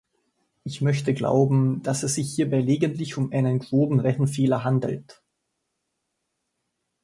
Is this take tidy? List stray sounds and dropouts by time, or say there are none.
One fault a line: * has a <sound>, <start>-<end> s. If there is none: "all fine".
all fine